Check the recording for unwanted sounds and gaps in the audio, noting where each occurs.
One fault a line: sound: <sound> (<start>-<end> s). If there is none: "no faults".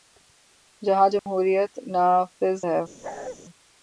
sound: dropout (1.2-1.3 s)
sound: bark (3.0-3.4 s)